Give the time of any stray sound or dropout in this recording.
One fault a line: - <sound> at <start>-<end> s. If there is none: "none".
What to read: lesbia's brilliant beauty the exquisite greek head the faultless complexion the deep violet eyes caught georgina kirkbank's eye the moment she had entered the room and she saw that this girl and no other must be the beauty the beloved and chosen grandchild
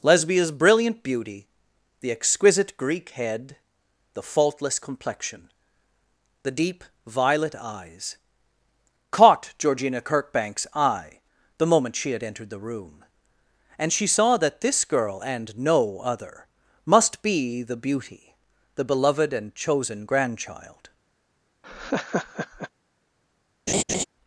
- laugh at 21.6-22.7 s
- laugh at 23.7-24.0 s